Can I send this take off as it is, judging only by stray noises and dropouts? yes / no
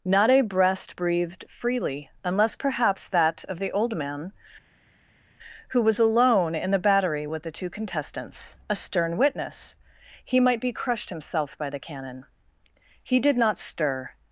yes